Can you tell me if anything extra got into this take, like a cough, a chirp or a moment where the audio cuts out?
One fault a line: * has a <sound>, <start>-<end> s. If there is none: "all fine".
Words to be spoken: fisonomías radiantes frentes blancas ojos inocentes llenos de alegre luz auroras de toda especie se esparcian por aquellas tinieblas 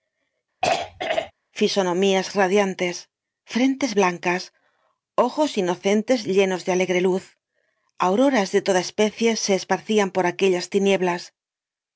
* has a throat clearing, 0.6-1.3 s